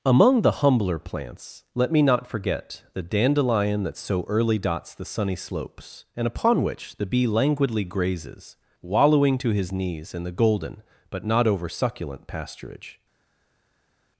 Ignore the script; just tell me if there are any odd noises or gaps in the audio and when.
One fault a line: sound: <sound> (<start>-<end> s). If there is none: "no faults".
no faults